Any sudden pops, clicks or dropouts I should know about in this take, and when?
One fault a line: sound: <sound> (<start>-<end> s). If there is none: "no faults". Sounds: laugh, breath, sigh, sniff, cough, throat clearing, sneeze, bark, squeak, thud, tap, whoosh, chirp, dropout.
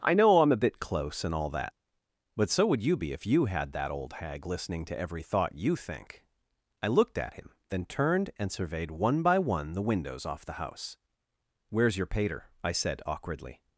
no faults